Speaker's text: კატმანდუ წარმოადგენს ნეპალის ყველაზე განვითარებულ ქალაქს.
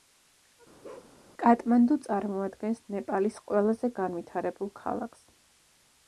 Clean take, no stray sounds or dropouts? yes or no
no